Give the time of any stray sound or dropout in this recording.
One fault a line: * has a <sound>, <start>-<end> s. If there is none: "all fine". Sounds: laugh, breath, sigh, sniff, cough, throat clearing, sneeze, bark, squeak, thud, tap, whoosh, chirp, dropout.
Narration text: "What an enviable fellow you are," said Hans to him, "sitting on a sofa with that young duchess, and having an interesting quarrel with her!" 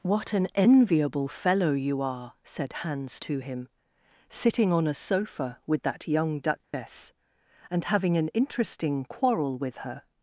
* has a dropout, 6.6-6.7 s